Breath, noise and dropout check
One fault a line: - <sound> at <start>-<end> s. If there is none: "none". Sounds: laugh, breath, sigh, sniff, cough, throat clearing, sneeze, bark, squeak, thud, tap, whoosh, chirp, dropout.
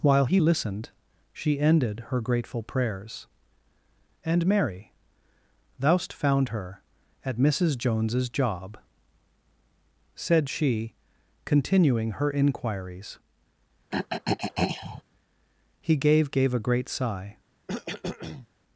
- throat clearing at 13.9-15.0 s
- cough at 17.7-18.5 s